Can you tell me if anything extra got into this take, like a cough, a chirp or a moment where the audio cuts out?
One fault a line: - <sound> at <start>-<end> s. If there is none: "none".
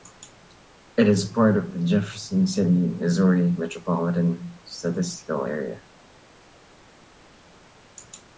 none